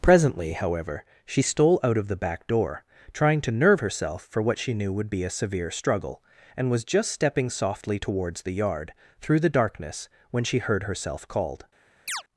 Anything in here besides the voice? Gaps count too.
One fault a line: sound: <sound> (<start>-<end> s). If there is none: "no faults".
sound: chirp (12.1-12.2 s)